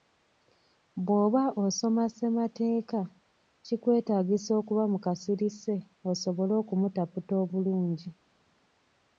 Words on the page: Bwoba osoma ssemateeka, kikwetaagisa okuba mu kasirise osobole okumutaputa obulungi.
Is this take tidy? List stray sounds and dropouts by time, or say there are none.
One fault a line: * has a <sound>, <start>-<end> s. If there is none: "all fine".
all fine